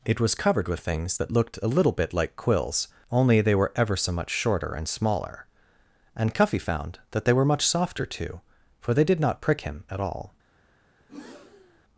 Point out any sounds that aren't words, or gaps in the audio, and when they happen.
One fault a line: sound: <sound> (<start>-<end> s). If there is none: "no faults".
sound: breath (11.0-11.8 s)